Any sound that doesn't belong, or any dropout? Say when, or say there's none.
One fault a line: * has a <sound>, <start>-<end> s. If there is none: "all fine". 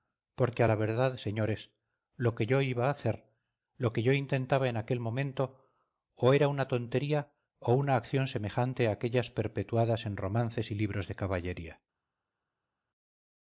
all fine